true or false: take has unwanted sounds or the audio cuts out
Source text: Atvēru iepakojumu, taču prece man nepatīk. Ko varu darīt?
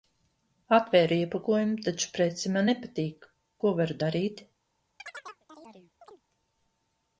true